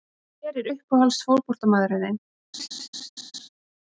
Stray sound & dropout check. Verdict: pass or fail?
fail